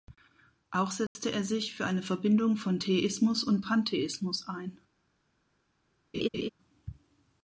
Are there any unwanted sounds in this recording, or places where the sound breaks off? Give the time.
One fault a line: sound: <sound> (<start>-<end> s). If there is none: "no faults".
sound: dropout (1.1-1.2 s)
sound: laugh (6.1-6.5 s)